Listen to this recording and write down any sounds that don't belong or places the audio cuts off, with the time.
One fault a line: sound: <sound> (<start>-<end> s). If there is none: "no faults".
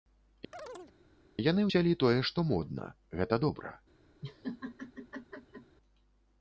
sound: chirp (0.5-0.9 s)
sound: laugh (4.2-5.8 s)